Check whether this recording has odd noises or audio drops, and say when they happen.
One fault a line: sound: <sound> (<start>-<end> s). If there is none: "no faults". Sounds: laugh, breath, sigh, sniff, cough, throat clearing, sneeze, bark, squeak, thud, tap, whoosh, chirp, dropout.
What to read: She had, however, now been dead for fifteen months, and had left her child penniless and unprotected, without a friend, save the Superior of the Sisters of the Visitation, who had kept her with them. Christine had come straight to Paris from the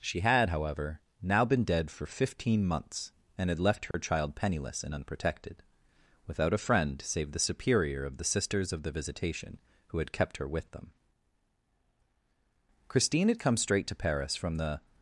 sound: dropout (3.9-3.9 s)